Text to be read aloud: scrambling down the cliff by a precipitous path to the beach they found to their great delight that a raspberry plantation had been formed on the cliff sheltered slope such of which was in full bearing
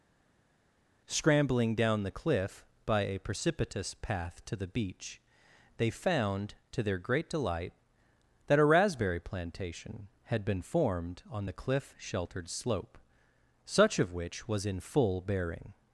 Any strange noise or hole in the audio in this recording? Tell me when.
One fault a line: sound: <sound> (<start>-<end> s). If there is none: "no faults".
no faults